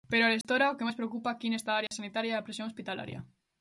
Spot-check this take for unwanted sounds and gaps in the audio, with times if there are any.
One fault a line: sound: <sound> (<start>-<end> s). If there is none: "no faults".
sound: dropout (0.4-0.4 s)
sound: dropout (1.9-1.9 s)